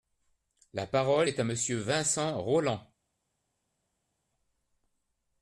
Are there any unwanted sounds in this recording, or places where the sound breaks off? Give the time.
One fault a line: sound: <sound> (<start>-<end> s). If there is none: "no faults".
no faults